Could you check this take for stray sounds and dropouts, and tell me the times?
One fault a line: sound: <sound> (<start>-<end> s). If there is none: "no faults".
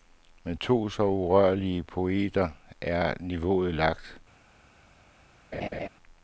sound: laugh (5.5-5.9 s)